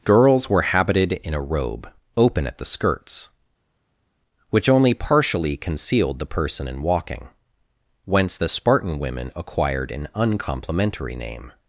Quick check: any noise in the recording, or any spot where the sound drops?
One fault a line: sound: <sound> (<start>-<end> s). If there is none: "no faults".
no faults